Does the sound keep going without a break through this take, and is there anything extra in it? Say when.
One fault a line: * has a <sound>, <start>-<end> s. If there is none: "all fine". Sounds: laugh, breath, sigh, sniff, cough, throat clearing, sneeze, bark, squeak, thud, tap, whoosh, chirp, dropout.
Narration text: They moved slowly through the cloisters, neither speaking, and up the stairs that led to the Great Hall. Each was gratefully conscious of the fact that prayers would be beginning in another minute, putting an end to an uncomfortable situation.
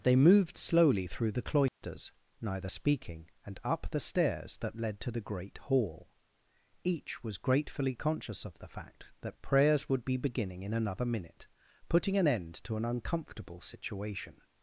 * has a dropout, 1.7-1.8 s